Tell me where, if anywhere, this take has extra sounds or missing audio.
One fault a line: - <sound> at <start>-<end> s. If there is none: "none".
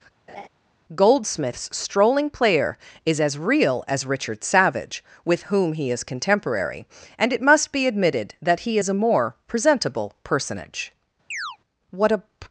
- laugh at 0.3-0.5 s
- chirp at 11.3-11.6 s